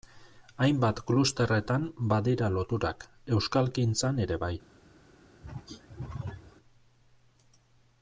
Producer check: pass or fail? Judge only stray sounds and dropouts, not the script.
fail